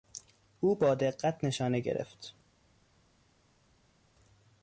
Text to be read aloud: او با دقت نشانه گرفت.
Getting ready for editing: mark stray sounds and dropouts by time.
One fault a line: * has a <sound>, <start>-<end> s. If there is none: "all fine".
all fine